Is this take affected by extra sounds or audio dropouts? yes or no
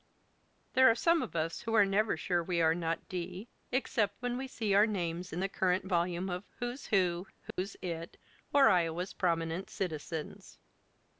yes